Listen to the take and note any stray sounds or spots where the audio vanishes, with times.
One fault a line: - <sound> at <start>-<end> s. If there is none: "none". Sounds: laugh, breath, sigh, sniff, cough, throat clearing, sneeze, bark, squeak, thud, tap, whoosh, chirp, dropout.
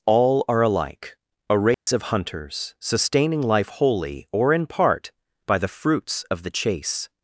- dropout at 1.7-1.9 s